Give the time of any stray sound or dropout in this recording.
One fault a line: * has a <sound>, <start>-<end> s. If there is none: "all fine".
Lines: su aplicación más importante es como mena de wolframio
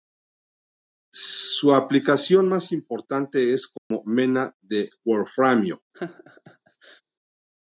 * has a dropout, 3.8-3.9 s
* has a laugh, 5.9-7.0 s